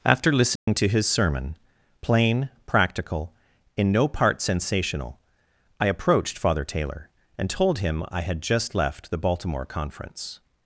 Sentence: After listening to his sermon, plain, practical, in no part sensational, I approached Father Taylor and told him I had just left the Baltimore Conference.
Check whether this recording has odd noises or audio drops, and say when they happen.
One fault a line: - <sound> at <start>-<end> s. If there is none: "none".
- dropout at 0.6-0.7 s